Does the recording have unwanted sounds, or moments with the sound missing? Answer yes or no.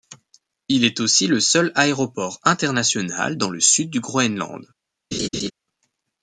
yes